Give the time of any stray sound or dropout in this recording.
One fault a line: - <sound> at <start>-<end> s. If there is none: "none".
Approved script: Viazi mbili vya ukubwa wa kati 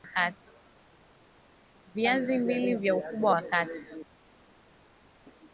none